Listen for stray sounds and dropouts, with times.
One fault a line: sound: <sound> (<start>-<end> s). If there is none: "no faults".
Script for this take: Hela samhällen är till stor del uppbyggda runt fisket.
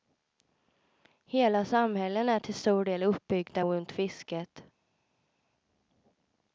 no faults